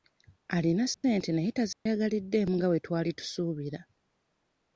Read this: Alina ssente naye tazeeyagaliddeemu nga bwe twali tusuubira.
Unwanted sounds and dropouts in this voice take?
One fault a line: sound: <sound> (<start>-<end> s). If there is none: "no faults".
sound: dropout (0.9-1.0 s)
sound: dropout (1.7-1.9 s)